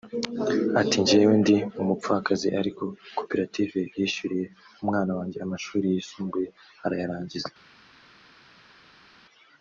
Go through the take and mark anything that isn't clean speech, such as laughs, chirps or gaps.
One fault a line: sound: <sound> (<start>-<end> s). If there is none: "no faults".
no faults